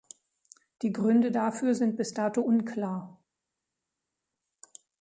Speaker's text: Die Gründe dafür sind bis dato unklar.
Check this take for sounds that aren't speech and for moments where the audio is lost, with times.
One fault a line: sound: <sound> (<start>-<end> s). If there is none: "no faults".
no faults